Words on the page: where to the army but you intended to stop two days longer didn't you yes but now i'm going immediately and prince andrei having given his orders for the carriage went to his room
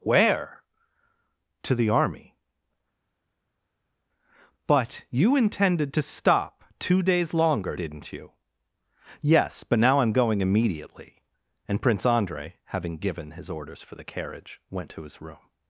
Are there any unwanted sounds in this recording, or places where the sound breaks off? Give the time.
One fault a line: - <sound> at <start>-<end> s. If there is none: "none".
none